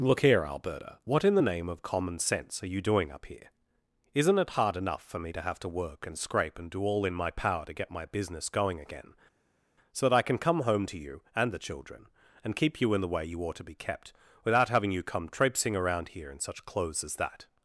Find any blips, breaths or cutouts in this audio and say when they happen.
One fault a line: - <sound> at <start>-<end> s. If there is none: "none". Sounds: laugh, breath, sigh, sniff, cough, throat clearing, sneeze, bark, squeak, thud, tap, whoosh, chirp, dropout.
none